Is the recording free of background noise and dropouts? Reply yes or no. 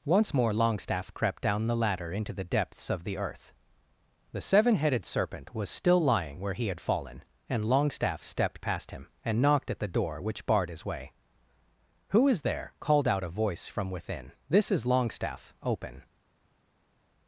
yes